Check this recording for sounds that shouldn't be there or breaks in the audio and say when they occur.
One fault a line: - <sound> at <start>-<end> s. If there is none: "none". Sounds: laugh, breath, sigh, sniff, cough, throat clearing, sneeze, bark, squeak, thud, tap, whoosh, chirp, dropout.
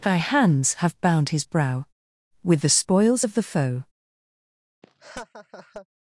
- laugh at 4.8-5.9 s